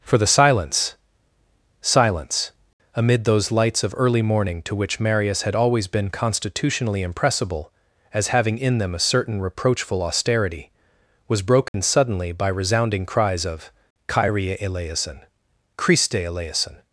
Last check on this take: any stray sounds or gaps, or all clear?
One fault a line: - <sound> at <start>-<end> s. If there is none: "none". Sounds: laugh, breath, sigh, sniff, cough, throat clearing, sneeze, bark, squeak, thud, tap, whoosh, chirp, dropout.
- dropout at 11.7-11.7 s